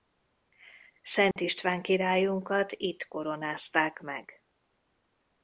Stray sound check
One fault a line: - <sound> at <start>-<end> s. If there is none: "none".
- dropout at 1.3-1.4 s